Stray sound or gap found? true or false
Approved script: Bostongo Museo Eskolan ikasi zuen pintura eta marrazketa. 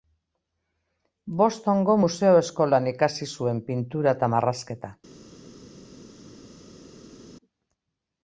false